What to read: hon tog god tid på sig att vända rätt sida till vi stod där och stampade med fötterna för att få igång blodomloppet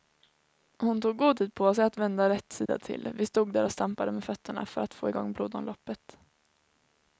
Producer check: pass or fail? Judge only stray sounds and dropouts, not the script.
fail